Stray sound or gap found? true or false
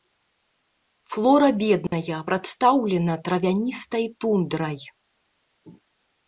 true